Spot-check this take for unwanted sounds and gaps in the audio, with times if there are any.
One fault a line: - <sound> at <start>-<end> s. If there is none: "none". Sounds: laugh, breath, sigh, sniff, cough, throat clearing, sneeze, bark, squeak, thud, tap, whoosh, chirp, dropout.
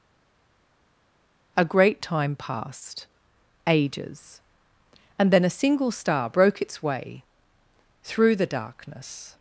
none